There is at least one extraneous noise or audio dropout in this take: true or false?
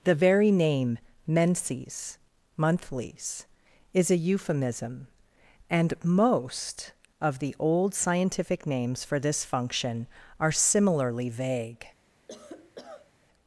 true